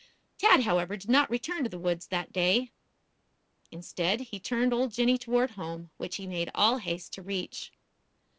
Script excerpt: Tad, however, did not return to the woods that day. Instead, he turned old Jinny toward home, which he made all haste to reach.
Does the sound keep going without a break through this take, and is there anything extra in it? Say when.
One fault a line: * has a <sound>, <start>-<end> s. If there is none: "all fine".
all fine